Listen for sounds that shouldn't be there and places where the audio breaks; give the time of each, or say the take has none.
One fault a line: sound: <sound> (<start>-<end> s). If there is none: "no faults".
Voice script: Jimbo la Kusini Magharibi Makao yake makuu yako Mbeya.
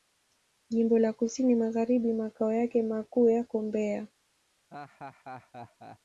sound: laugh (4.7-6.0 s)